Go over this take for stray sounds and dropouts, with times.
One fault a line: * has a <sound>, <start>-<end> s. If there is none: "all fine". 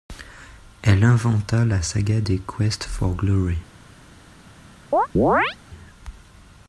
* has a chirp, 4.9-5.6 s